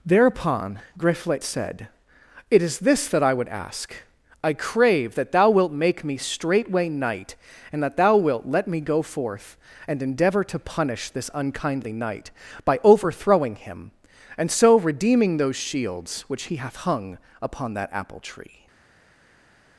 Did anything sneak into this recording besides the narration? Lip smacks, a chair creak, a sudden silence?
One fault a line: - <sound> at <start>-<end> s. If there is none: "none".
none